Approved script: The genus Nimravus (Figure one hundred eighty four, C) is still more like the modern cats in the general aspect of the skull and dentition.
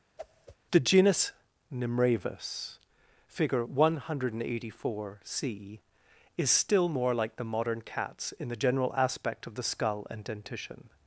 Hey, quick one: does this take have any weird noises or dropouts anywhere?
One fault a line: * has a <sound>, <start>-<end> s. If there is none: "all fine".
* has a whoosh, 0.2-0.6 s